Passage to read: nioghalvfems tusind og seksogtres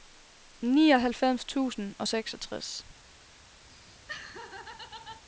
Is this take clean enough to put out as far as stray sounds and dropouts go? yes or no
no